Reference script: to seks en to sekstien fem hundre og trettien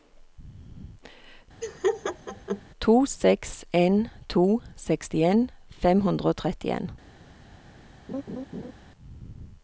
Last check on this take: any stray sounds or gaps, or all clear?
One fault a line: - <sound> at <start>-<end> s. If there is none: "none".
- laugh at 1.6-2.6 s
- laugh at 8.1-8.7 s